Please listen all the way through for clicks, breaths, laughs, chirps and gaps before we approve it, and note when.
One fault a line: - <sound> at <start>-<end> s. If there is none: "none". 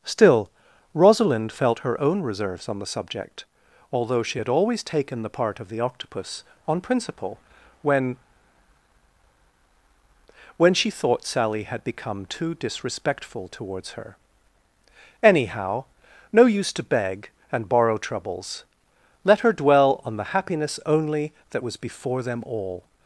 none